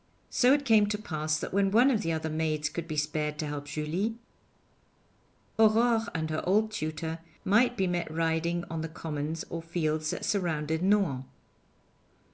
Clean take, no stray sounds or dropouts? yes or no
yes